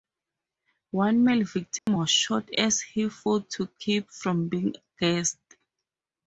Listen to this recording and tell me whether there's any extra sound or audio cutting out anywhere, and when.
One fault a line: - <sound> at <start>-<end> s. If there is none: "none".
- dropout at 1.8-1.9 s